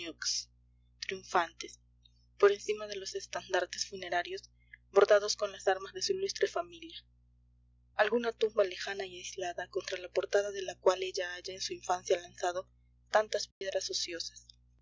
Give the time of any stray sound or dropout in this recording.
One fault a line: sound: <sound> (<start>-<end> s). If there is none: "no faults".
sound: dropout (13.5-13.6 s)